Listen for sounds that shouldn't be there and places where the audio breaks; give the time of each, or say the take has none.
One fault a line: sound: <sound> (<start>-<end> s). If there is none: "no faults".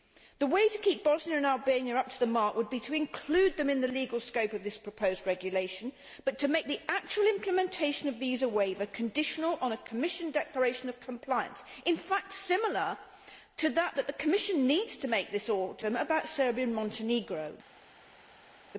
no faults